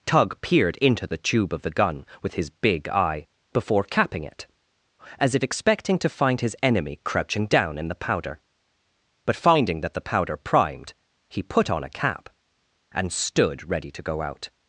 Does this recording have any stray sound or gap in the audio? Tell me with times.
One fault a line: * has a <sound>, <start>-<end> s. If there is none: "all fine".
all fine